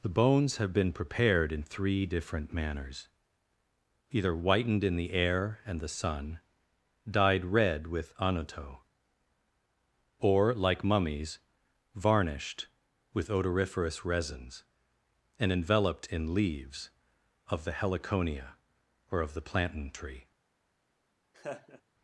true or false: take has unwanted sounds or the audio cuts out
true